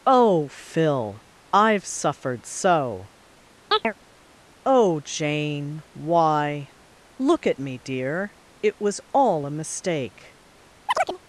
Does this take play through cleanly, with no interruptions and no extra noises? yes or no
no